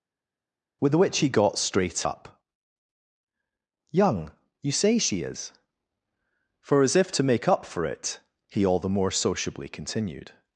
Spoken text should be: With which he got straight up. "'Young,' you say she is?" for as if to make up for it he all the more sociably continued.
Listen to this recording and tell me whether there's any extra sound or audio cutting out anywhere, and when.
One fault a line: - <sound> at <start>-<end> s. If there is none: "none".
none